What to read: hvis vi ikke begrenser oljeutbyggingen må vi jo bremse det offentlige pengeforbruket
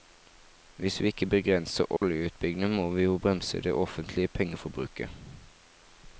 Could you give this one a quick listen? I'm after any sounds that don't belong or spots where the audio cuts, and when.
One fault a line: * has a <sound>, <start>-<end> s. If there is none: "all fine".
* has a dropout, 2.0-2.0 s